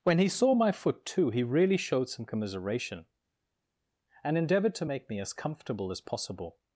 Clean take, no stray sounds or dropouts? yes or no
yes